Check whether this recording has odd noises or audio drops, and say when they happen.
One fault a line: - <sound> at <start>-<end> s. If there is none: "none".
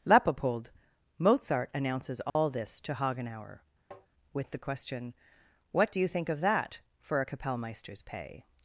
- dropout at 2.3-2.4 s
- tap at 3.9-4.1 s